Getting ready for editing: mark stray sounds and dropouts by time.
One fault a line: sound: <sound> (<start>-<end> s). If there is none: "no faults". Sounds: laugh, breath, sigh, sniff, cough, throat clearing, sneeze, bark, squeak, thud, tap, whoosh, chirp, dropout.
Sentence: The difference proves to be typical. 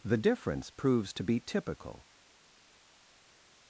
no faults